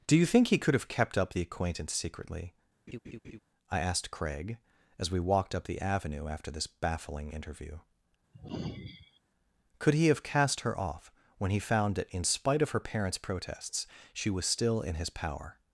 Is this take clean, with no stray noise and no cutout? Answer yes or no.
no